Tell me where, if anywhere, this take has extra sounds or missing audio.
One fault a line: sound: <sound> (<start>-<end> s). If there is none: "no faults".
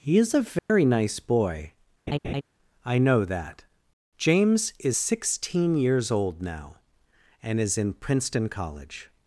sound: dropout (0.6-0.7 s)
sound: laugh (2.1-2.4 s)